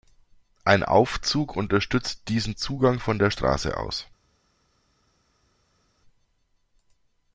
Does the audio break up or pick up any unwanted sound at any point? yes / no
no